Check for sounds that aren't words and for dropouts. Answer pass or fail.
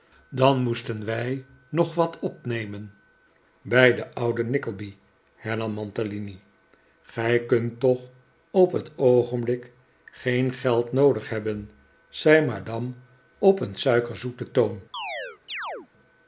fail